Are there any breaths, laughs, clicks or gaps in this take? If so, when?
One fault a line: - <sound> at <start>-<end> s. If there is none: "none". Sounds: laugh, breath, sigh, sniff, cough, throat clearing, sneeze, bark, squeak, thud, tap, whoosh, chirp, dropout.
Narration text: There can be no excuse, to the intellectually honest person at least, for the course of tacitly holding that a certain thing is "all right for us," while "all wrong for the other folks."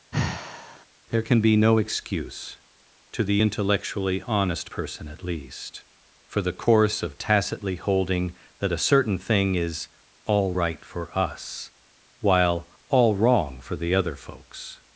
- sigh at 0.1-0.9 s